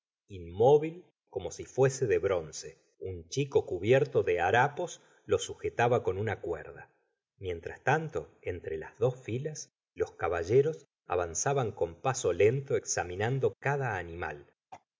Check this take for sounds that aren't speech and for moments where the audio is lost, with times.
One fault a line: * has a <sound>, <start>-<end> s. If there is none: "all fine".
* has a throat clearing, 14.7-14.9 s